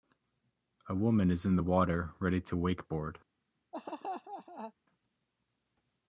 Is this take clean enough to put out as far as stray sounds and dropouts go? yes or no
no